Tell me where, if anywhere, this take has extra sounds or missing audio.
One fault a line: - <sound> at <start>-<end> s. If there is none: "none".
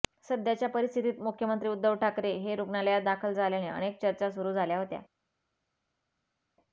none